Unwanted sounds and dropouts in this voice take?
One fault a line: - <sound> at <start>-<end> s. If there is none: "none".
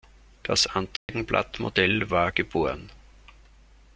- dropout at 1.0-1.1 s